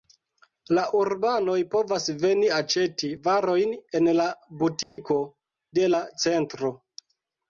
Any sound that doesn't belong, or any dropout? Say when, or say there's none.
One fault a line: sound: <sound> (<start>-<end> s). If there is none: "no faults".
sound: dropout (4.8-5.0 s)